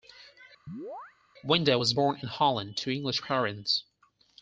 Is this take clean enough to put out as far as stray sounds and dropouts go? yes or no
no